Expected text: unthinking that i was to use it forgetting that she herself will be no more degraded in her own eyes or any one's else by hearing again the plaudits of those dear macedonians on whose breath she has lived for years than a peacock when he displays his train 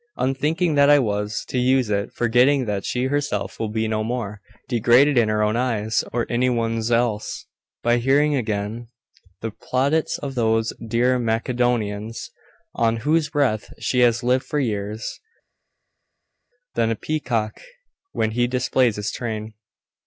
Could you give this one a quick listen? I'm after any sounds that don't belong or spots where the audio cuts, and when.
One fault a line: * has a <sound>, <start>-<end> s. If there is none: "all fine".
all fine